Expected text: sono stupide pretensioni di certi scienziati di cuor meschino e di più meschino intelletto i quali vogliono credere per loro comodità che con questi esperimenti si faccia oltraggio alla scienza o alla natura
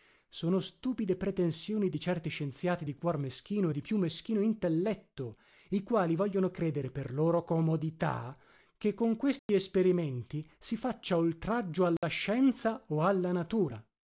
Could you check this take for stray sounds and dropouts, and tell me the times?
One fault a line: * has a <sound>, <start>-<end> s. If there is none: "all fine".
* has a dropout, 9.4-9.5 s
* has a dropout, 12.0-12.0 s